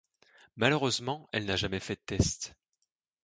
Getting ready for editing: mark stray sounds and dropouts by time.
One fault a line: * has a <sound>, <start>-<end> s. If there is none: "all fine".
all fine